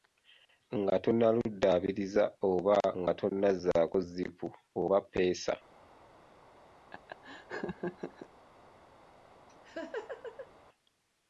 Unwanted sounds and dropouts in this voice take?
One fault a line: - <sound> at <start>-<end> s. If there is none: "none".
- laugh at 6.9-8.3 s
- laugh at 9.5-10.5 s